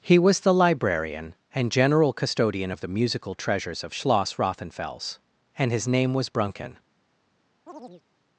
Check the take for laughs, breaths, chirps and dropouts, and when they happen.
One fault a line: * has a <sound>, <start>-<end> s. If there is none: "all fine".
* has a chirp, 7.7-8.0 s